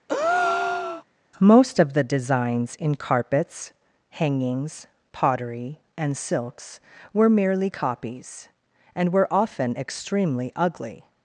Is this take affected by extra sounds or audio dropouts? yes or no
yes